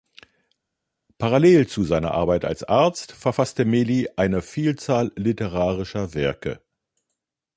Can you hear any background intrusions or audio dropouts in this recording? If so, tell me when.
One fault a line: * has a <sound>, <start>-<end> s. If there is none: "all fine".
all fine